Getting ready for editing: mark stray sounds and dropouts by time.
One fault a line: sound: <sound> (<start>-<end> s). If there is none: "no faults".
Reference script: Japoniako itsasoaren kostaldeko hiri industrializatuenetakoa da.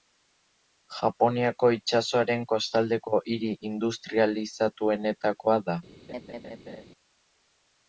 sound: laugh (6.1-6.9 s)